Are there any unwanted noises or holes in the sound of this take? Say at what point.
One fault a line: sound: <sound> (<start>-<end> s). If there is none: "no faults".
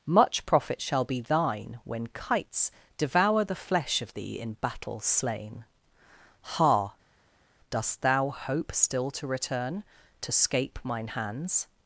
no faults